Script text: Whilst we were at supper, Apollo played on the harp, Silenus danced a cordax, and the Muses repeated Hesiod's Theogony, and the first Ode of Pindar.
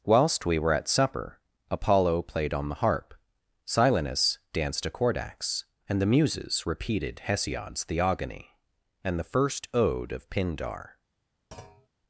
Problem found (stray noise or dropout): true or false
true